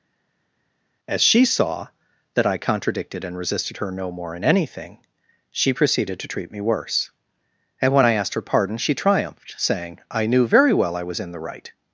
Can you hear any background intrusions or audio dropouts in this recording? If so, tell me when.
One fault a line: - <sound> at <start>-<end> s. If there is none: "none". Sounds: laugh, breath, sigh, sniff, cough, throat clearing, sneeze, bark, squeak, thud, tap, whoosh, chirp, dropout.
none